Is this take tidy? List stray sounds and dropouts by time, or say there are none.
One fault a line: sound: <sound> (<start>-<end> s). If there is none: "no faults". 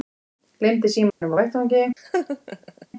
sound: dropout (1.1-1.2 s)
sound: laugh (2.0-2.9 s)